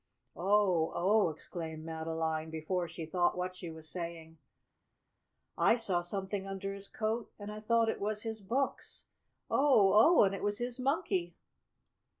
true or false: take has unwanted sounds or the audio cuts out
false